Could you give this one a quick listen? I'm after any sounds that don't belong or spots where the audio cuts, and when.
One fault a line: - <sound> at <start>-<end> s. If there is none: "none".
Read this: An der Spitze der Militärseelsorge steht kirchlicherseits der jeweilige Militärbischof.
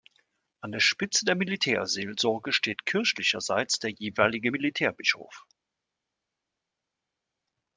none